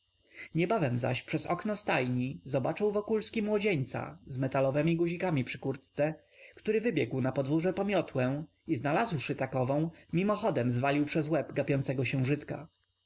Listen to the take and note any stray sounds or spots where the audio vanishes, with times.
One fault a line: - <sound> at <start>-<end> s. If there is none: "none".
none